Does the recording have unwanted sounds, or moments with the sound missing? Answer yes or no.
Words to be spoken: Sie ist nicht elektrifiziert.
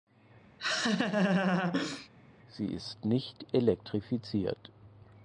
yes